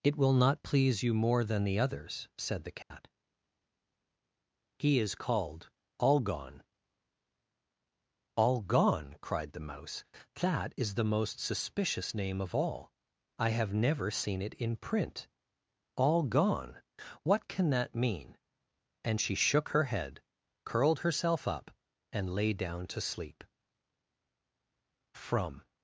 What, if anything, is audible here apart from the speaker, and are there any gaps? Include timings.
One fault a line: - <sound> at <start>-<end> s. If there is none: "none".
- dropout at 2.8-2.9 s